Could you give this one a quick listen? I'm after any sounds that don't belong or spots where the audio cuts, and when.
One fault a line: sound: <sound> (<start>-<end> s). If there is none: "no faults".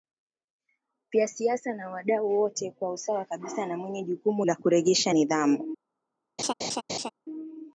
sound: laugh (6.4-7.1 s)